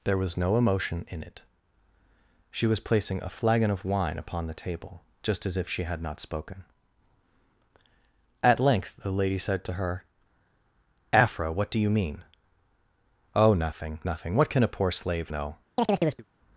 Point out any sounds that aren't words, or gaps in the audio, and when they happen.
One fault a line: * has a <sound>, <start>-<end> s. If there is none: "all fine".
* has a chirp, 15.8-16.2 s